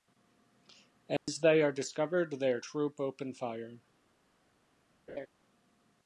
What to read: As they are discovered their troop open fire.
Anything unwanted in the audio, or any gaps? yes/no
yes